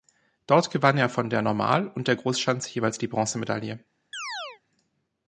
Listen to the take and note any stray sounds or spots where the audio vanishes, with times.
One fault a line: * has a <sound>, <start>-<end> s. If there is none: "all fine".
* has a chirp, 4.1-4.6 s